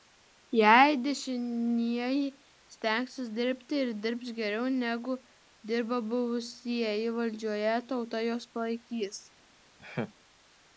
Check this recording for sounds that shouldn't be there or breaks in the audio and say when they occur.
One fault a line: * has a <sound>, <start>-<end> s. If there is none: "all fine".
* has a laugh, 9.8-10.1 s